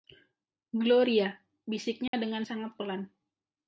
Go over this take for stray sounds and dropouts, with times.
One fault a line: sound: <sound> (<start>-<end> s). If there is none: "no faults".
sound: dropout (2.1-2.1 s)